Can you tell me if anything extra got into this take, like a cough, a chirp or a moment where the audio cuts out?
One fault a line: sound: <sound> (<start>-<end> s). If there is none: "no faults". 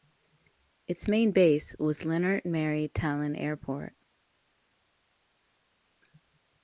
no faults